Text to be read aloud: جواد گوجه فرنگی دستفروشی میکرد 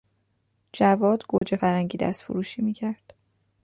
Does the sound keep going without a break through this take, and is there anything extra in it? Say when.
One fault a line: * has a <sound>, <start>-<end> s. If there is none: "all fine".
* has a dropout, 1.4-1.4 s